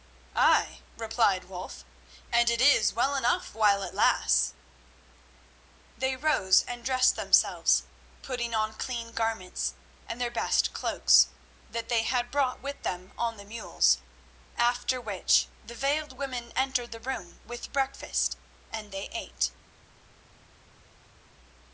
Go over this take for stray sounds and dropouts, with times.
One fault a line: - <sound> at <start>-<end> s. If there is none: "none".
none